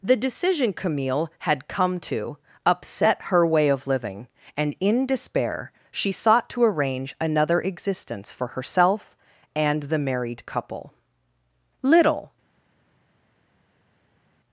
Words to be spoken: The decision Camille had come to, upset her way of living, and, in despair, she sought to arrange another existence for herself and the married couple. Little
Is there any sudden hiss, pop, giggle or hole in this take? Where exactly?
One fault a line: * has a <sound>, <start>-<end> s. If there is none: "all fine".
all fine